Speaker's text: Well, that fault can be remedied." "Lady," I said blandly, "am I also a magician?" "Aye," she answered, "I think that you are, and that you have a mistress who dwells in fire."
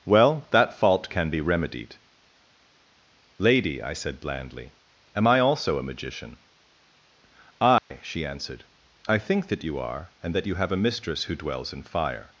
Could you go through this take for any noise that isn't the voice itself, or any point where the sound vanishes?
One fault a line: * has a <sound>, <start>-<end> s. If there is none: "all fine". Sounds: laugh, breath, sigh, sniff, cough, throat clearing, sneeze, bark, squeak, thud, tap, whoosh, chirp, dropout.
* has a dropout, 7.8-7.9 s